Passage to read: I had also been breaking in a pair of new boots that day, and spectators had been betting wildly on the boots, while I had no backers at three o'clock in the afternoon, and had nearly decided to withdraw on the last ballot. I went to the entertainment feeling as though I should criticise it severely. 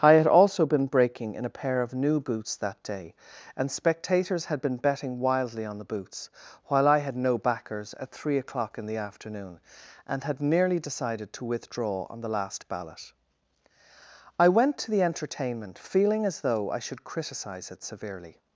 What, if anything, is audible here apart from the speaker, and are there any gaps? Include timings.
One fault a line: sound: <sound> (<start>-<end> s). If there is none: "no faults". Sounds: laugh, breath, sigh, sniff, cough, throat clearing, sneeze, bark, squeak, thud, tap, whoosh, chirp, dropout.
no faults